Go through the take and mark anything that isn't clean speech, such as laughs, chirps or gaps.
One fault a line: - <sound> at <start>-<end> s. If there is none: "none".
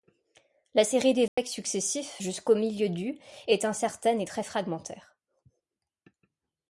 - dropout at 1.3-1.4 s